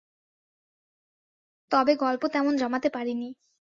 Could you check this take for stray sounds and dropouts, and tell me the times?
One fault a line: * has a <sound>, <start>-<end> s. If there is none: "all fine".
all fine